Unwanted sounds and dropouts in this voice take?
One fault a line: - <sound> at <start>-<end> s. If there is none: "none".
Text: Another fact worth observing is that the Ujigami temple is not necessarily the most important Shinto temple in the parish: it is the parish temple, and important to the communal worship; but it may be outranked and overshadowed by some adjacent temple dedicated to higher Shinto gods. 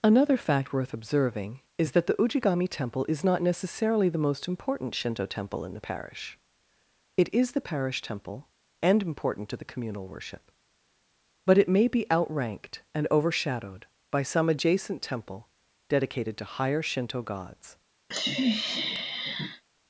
- sniff at 18.1-19.6 s